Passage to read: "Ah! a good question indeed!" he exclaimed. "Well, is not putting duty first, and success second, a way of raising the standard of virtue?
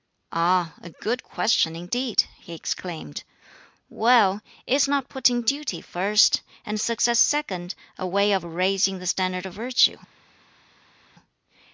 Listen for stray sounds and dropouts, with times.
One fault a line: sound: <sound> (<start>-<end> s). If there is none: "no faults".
no faults